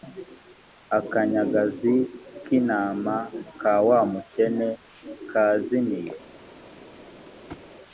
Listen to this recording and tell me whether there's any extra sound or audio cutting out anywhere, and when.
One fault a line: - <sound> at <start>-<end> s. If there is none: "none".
- thud at 7.5-7.7 s